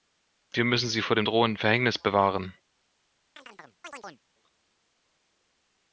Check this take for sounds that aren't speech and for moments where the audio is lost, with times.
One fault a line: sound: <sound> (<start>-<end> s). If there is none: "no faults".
sound: chirp (3.4-4.2 s)